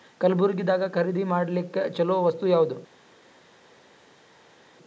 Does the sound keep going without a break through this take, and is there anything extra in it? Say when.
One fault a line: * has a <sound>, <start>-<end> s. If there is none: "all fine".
all fine